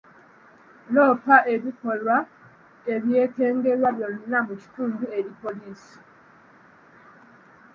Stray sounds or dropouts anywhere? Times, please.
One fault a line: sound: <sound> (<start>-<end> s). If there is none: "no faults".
no faults